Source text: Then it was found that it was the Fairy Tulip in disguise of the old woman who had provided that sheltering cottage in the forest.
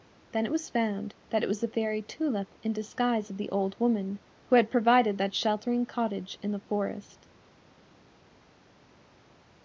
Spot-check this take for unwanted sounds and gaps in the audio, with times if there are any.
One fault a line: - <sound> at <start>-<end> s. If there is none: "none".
none